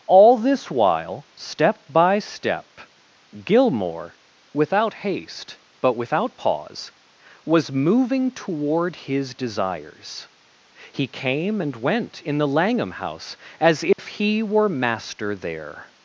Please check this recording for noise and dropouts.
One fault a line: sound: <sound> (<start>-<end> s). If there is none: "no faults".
sound: dropout (13.9-14.0 s)